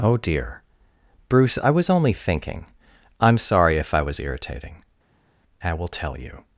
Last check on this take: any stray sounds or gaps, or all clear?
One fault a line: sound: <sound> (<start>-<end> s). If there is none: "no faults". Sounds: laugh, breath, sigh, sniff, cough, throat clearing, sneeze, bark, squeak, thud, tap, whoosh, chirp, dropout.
no faults